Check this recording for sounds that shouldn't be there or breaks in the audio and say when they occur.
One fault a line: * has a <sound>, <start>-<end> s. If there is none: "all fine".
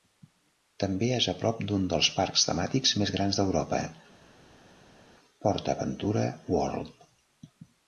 all fine